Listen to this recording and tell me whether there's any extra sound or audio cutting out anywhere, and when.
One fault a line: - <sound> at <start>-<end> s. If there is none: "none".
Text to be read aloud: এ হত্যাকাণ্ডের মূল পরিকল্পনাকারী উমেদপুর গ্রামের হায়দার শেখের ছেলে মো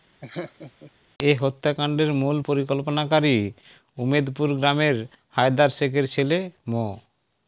- laugh at 0.2-0.9 s